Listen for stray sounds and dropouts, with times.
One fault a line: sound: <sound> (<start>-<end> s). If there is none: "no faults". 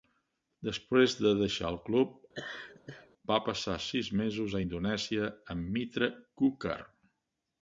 sound: laugh (2.3-3.1 s)